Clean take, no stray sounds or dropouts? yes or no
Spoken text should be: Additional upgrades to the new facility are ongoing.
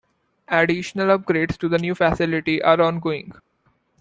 yes